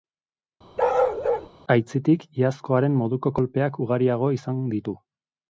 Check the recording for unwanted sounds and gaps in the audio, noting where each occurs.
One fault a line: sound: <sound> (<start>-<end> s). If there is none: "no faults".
sound: bark (0.8-1.5 s)